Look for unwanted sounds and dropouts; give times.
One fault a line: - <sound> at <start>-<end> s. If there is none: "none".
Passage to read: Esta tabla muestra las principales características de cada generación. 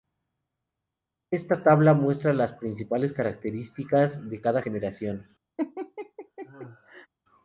- laugh at 5.6-7.1 s